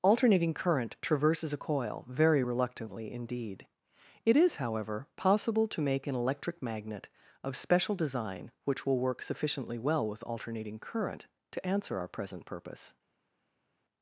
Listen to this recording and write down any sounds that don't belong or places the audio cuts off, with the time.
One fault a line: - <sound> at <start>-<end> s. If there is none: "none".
none